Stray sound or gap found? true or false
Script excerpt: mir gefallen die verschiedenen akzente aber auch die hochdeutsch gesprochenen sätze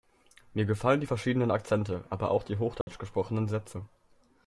true